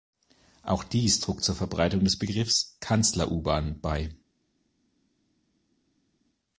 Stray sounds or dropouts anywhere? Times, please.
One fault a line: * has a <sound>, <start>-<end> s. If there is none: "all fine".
all fine